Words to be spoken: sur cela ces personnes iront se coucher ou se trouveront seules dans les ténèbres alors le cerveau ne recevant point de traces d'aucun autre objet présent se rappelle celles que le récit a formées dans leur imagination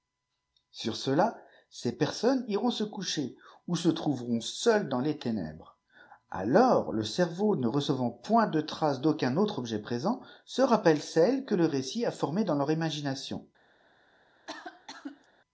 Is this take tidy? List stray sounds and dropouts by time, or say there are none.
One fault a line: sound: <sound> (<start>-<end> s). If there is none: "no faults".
sound: cough (14.5-15.3 s)